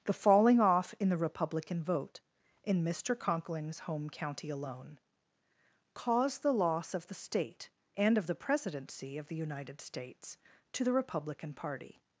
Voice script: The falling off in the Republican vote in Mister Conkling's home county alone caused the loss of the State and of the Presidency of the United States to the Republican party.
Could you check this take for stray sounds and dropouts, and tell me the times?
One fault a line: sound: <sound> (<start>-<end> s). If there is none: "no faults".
no faults